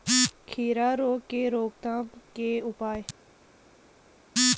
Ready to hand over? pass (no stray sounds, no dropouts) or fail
pass